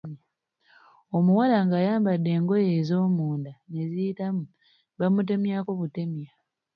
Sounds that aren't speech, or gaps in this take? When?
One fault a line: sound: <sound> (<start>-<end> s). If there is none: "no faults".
no faults